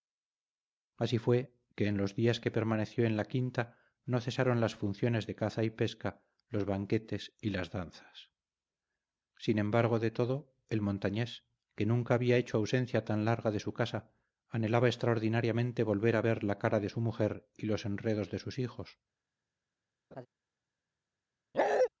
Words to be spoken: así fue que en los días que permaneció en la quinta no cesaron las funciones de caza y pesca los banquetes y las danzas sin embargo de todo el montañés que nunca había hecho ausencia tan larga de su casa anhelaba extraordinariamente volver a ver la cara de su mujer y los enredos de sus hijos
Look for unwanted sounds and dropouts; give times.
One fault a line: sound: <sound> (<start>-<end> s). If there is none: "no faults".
sound: laugh (20.1-20.3 s)
sound: bark (21.5-21.9 s)